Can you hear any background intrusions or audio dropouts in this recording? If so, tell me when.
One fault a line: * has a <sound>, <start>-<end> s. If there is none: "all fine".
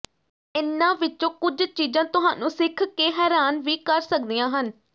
all fine